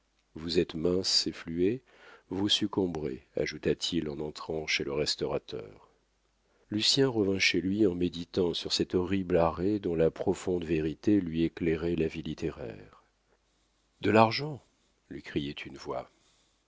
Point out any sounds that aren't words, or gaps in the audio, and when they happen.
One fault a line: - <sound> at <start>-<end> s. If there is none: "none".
none